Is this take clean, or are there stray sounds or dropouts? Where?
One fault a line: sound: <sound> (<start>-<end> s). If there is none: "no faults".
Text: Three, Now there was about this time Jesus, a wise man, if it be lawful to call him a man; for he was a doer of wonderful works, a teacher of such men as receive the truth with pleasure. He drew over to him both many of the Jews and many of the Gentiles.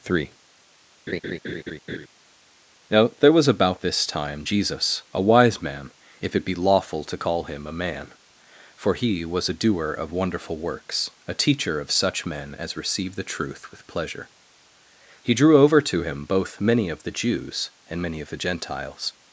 sound: laugh (1.1-2.1 s)